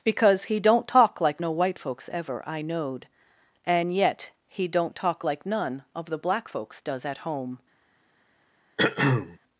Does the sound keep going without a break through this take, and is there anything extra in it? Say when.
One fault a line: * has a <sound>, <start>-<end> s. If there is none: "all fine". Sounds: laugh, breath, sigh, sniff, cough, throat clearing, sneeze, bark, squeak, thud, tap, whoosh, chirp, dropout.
* has a throat clearing, 8.8-9.4 s